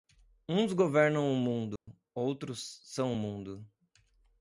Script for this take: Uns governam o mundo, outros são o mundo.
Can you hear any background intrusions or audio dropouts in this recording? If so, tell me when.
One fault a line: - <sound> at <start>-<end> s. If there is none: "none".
- dropout at 1.8-1.9 s